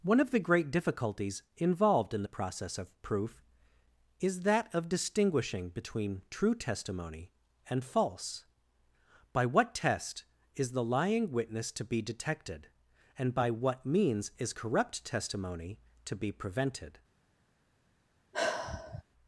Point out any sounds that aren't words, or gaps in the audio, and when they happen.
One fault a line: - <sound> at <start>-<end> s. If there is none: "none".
- sigh at 18.3-19.0 s